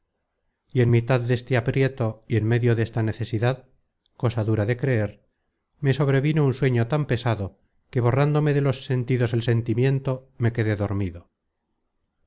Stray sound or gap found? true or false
false